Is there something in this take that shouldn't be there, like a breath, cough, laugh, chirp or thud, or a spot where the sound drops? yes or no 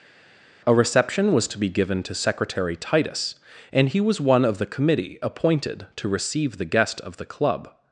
no